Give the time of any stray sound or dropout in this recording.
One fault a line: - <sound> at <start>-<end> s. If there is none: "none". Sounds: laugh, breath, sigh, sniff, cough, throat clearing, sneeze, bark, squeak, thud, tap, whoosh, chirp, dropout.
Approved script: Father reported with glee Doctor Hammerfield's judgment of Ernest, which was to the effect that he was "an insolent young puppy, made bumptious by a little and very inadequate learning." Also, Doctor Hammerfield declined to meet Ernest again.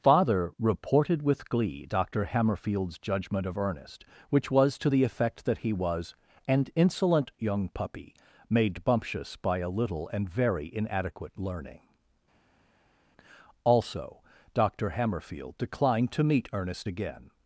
none